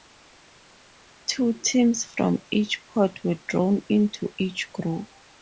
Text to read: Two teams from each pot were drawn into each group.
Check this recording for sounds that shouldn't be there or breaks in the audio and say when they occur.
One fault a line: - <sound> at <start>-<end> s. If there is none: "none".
none